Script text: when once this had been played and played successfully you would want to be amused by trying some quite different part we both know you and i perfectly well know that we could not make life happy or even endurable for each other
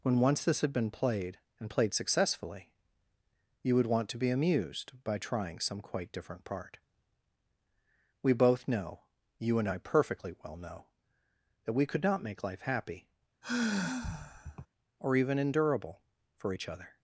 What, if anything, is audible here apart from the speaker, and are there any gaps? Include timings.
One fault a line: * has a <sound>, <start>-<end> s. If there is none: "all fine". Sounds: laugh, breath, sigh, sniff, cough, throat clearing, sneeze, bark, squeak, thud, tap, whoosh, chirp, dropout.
* has a sigh, 13.4-14.7 s